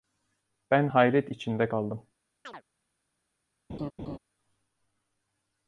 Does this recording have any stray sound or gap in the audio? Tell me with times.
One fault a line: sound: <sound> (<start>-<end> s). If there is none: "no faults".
sound: chirp (2.4-2.6 s)
sound: laugh (3.7-4.2 s)